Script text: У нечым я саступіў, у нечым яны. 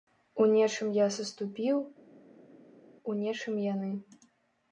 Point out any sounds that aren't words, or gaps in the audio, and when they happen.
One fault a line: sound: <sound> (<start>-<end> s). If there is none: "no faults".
no faults